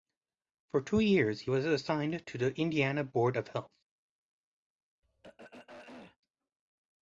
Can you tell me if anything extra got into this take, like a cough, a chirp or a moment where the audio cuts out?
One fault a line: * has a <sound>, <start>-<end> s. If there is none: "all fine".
* has a throat clearing, 5.0-6.2 s